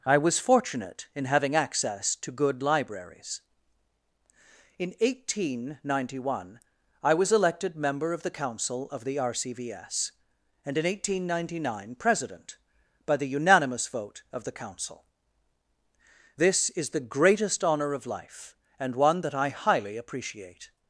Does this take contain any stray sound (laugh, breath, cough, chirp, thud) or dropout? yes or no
no